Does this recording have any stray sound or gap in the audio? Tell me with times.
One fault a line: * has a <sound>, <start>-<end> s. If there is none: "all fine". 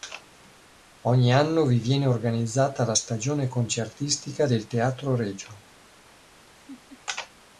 * has a laugh, 6.6-7.0 s